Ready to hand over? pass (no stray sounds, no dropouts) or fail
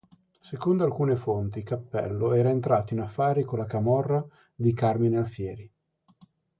pass